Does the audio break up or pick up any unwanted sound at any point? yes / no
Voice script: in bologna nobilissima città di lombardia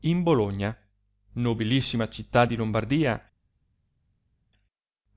no